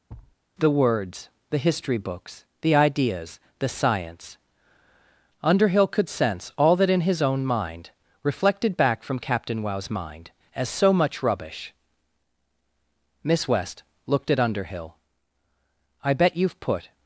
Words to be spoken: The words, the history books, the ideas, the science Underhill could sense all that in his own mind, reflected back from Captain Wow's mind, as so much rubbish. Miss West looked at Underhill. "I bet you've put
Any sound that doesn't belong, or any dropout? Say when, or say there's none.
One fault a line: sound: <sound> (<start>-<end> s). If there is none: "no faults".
sound: thud (0.1-0.4 s)